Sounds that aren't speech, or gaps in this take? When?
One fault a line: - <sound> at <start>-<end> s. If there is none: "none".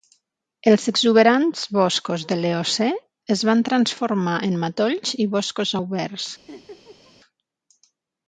- laugh at 6.5-7.1 s